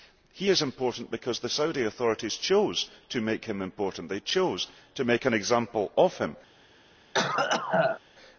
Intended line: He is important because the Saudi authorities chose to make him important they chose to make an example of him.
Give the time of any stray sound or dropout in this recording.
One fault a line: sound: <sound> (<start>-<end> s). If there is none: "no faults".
sound: cough (7.1-8.0 s)